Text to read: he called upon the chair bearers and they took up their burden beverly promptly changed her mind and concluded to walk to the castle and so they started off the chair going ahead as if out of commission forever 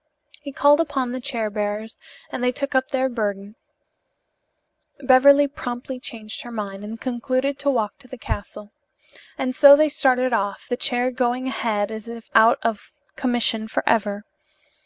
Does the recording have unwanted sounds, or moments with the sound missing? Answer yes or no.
no